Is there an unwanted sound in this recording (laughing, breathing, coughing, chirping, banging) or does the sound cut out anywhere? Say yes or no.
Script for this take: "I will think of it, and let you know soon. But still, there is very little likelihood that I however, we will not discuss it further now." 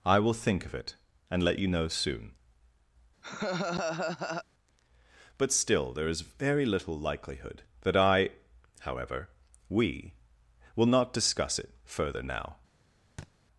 yes